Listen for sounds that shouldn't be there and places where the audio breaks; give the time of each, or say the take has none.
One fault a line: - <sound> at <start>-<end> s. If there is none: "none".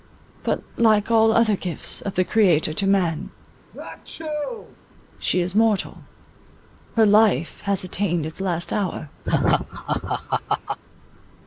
- sneeze at 3.7-4.8 s
- laugh at 9.2-10.8 s